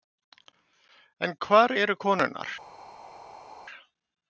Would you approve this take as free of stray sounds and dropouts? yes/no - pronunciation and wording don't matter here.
yes